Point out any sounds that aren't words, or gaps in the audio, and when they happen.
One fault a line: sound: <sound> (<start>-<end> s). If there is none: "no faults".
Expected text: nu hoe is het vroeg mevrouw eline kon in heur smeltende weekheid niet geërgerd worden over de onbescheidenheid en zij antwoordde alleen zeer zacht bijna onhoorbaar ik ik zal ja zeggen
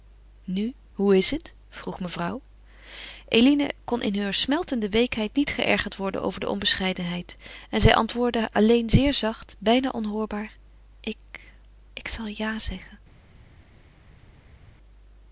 no faults